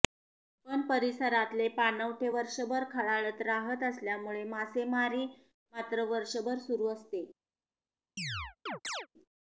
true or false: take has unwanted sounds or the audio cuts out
true